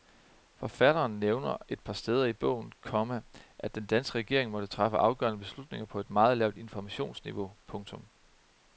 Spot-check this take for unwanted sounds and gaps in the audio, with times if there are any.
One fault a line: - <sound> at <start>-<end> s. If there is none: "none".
none